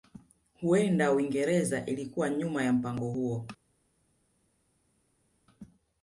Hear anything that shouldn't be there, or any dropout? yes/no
no